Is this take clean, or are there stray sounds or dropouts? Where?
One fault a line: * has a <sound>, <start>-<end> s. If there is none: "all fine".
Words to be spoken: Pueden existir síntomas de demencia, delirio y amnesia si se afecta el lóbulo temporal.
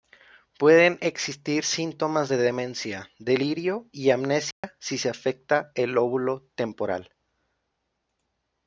* has a dropout, 4.5-4.6 s